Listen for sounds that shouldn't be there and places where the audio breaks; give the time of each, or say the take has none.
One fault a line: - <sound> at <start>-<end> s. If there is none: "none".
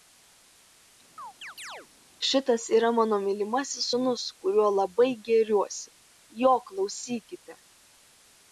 - chirp at 1.2-1.9 s